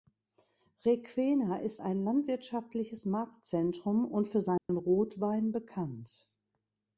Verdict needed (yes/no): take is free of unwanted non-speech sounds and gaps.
no